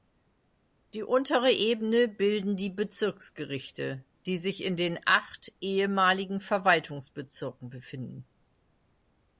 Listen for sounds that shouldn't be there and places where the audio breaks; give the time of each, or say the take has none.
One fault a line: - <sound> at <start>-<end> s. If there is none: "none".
none